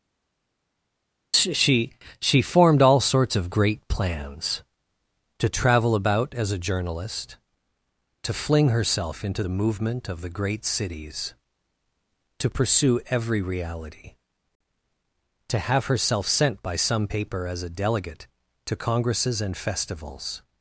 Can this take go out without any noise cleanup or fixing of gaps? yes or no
yes